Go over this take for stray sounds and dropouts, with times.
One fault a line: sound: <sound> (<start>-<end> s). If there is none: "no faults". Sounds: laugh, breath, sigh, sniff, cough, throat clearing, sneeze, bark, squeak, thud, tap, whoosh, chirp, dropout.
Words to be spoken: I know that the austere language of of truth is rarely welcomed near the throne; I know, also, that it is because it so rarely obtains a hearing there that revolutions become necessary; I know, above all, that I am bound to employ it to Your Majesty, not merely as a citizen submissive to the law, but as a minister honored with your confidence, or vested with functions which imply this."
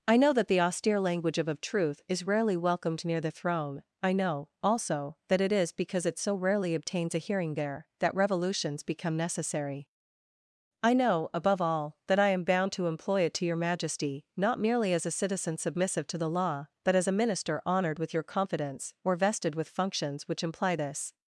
no faults